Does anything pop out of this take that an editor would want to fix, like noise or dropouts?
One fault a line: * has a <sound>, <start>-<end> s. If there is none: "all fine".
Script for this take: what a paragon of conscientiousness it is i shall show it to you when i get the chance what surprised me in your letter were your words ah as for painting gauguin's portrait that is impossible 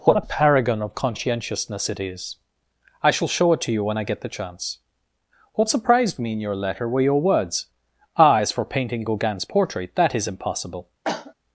* has a cough, 11.0-11.3 s